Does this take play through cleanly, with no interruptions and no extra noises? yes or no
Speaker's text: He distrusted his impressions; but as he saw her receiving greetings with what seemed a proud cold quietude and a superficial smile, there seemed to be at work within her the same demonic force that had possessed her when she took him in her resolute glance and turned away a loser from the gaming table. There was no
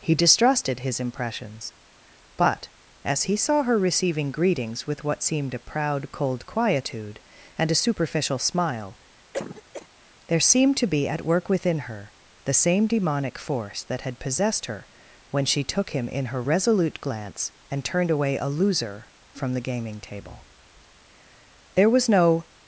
no